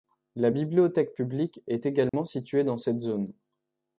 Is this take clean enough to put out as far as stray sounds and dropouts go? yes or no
no